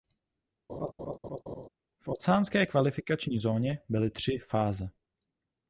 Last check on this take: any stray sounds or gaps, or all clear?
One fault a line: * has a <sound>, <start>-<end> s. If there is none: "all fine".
* has a laugh, 0.7-1.7 s